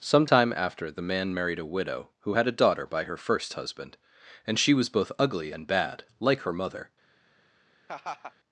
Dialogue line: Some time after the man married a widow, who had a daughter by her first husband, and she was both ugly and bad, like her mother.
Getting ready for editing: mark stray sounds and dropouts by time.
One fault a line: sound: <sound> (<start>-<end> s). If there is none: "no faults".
sound: laugh (7.9-8.3 s)